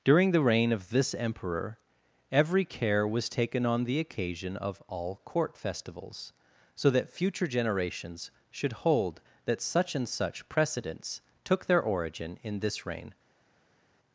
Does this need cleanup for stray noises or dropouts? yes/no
no